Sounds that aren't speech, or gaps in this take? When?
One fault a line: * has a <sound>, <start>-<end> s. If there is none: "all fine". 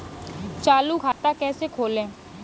* has a dropout, 1.1-1.2 s